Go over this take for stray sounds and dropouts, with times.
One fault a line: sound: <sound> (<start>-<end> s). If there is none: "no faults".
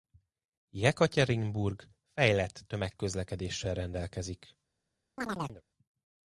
sound: chirp (5.2-5.6 s)